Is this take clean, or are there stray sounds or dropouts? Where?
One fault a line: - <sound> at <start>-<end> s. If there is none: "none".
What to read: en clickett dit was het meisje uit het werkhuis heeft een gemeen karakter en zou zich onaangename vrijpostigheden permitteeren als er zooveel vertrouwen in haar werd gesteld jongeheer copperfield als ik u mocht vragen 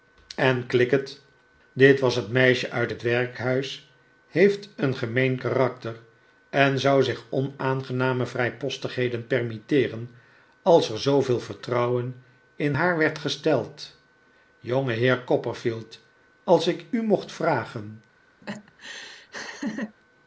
- laugh at 18.4-20.0 s